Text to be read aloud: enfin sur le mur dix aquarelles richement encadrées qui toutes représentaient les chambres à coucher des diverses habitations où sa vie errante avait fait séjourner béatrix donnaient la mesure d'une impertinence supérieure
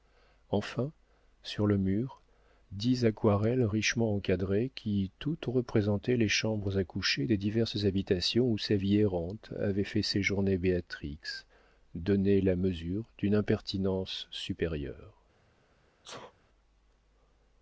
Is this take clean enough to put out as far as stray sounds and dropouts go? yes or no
no